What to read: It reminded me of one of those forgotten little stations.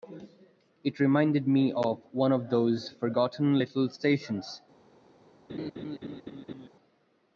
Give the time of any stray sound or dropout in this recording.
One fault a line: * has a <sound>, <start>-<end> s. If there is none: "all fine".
* has a laugh, 5.5-6.7 s